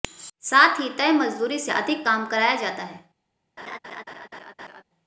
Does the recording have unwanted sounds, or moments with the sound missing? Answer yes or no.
yes